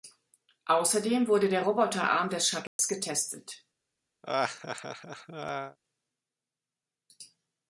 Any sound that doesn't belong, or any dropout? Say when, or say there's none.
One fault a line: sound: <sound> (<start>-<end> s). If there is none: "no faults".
sound: dropout (2.7-2.8 s)
sound: laugh (4.2-5.8 s)